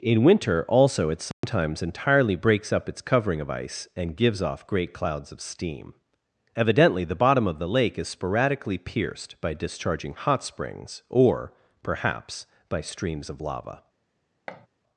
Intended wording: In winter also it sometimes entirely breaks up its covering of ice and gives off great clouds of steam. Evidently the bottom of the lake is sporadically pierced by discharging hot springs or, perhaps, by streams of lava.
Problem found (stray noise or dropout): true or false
true